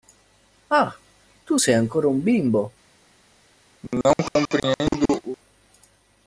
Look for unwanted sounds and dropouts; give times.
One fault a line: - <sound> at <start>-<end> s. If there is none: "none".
- cough at 3.8-5.4 s